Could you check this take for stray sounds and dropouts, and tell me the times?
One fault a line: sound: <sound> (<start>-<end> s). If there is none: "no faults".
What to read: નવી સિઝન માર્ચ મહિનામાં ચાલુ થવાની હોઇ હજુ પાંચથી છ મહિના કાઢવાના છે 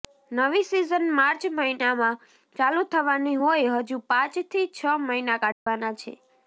sound: dropout (5.5-5.7 s)